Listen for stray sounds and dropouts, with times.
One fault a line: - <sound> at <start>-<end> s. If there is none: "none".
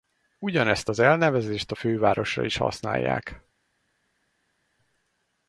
none